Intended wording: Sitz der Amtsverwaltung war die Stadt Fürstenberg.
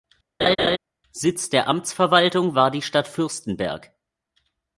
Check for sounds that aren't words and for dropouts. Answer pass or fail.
fail